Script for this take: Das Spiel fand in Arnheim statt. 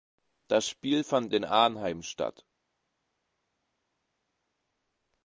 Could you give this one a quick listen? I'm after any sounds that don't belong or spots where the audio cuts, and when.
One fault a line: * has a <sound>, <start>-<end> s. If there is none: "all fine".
all fine